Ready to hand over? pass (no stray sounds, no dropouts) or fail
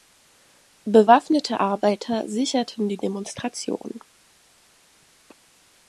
pass